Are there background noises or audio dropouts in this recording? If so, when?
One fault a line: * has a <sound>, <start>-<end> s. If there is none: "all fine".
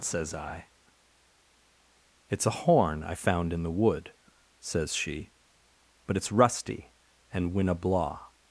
all fine